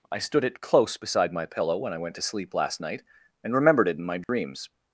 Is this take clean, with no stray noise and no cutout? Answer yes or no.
no